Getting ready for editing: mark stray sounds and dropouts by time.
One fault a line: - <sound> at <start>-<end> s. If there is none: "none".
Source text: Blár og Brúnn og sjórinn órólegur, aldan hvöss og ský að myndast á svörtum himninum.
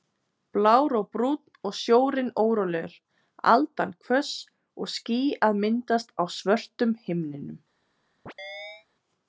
- chirp at 8.3-8.9 s